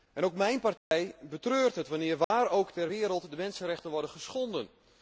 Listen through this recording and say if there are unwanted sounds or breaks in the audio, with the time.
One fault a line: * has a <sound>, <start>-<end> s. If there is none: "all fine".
* has a dropout, 0.8-0.9 s
* has a dropout, 2.2-2.3 s